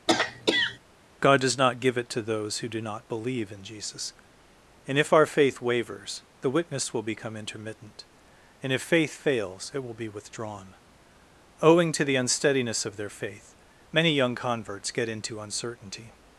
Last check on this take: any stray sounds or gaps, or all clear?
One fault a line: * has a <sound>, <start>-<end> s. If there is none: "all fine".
* has a throat clearing, 0.1-0.8 s